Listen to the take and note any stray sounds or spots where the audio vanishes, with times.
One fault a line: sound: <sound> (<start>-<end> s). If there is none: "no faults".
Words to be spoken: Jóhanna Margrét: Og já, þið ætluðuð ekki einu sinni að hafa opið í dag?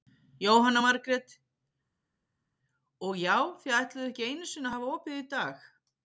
no faults